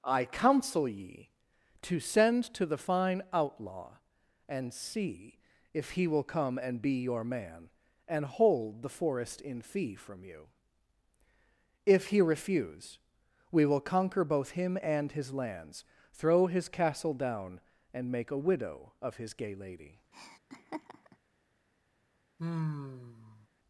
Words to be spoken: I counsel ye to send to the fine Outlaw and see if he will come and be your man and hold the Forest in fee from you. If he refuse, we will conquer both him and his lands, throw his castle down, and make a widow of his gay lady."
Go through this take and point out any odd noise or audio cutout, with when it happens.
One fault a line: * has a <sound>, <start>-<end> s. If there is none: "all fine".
* has a laugh, 20.1-21.2 s
* has a sigh, 22.4-23.5 s